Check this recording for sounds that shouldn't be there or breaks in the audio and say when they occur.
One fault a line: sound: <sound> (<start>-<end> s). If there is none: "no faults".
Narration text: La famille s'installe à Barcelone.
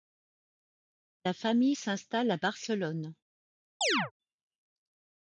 sound: chirp (3.8-4.1 s)